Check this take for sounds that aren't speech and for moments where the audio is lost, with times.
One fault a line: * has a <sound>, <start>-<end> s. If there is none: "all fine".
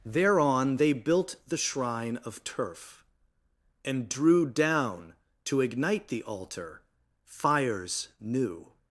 all fine